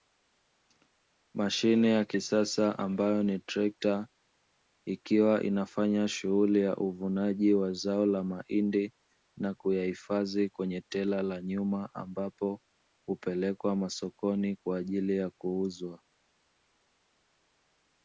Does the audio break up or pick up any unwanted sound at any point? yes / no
no